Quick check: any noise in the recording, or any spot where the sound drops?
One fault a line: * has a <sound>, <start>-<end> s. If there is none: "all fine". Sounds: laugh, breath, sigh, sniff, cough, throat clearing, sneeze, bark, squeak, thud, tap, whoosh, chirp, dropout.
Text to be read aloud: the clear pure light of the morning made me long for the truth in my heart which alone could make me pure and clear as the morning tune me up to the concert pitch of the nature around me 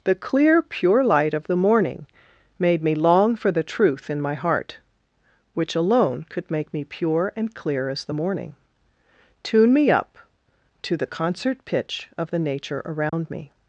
* has a dropout, 13.1-13.1 s